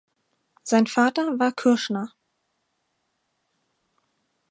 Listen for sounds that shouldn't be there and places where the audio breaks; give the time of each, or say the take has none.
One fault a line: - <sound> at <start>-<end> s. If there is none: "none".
none